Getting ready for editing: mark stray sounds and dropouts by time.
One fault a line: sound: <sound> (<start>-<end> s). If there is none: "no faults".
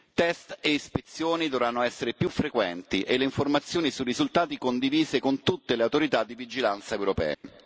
sound: dropout (7.3-7.4 s)